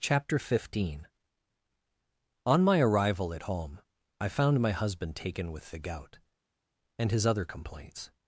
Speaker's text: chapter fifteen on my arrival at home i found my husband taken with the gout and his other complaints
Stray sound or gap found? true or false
false